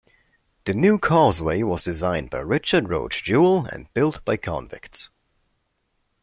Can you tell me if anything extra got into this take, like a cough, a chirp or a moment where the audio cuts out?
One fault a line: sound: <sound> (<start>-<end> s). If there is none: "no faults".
no faults